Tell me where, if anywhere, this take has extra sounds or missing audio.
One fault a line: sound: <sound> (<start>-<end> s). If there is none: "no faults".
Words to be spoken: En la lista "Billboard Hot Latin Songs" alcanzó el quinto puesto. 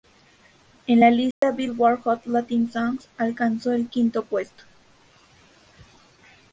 sound: dropout (1.3-1.4 s)